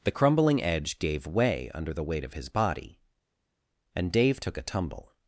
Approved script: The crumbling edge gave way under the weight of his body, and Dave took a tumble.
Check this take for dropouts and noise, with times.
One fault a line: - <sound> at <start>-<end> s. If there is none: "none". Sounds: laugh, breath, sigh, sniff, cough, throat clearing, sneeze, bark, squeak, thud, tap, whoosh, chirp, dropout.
none